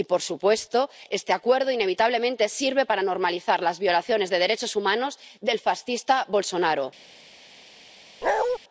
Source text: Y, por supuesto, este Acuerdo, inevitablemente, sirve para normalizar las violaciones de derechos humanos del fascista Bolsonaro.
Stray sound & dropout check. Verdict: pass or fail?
fail